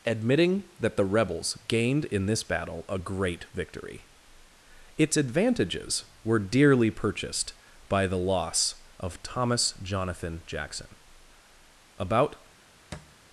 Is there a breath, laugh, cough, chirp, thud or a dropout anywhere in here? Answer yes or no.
yes